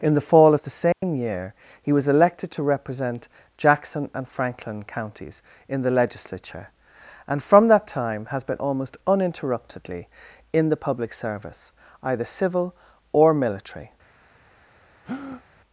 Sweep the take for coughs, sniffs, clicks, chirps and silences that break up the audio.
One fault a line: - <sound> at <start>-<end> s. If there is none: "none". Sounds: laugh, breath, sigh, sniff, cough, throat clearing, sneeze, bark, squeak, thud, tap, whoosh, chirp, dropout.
- dropout at 0.9-1.0 s
- breath at 15.0-15.4 s